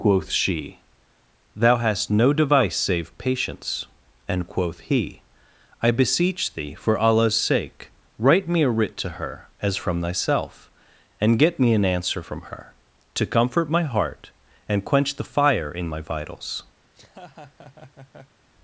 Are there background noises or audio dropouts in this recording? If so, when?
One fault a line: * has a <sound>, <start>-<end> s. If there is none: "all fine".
* has a laugh, 16.8-18.4 s